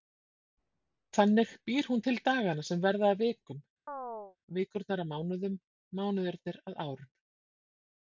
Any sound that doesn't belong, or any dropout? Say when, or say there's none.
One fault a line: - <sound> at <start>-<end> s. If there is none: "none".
- chirp at 3.9-4.4 s